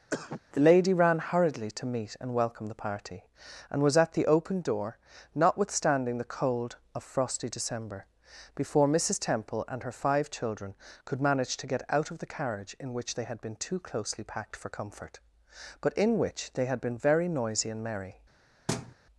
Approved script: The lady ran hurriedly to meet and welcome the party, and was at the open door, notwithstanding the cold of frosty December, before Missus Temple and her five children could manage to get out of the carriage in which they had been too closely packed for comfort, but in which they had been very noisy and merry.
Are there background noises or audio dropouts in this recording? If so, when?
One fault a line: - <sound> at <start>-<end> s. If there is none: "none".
- cough at 0.1-0.4 s
- thud at 18.7-18.9 s